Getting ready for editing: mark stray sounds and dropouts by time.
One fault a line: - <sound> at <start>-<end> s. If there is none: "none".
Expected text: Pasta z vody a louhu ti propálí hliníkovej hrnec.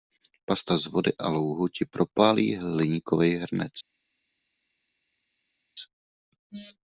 none